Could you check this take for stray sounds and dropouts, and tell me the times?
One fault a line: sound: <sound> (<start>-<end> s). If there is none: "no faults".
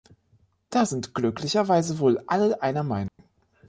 sound: dropout (3.1-3.2 s)